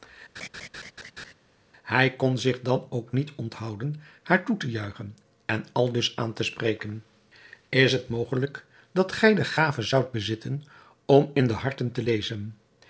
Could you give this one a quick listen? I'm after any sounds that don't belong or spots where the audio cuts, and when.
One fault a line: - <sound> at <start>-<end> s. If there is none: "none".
- laugh at 0.4-1.3 s